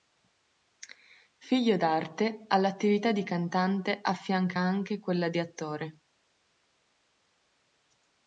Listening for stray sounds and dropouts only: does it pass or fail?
pass